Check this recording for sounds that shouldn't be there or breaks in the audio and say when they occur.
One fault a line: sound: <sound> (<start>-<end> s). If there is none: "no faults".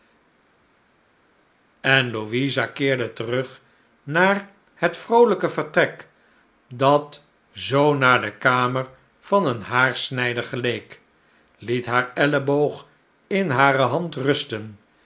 no faults